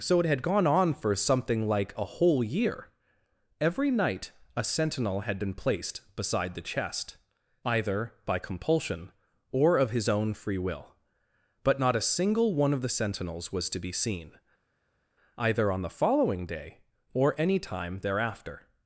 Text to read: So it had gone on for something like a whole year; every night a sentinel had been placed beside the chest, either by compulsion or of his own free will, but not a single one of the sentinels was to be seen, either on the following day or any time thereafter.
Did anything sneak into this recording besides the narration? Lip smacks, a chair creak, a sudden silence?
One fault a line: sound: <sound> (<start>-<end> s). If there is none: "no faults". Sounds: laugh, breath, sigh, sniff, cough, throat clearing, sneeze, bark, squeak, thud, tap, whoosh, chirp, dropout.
no faults